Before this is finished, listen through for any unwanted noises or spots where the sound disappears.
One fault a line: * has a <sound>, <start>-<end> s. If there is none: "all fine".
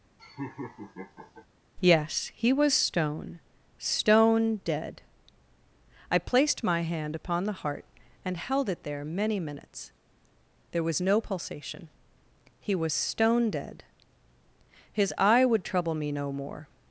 * has a laugh, 0.2-1.5 s